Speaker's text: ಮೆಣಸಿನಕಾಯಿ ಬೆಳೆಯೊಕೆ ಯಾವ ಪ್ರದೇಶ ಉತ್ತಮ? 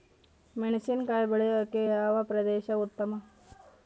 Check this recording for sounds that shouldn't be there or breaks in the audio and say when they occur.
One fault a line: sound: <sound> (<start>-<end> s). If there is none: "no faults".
no faults